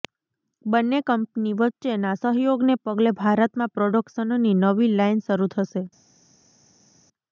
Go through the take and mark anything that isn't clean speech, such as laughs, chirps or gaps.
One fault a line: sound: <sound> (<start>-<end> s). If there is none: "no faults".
no faults